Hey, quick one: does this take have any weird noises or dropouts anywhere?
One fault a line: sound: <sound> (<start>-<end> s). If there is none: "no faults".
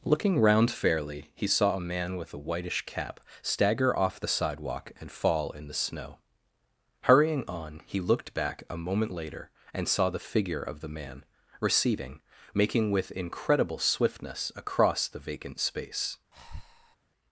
sound: breath (16.3-17.0 s)